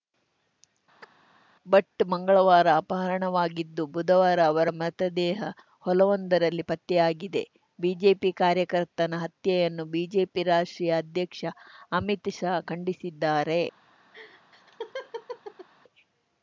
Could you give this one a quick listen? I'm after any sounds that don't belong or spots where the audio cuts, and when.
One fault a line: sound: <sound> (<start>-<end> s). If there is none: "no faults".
sound: chirp (1.0-1.1 s)
sound: laugh (14.1-15.7 s)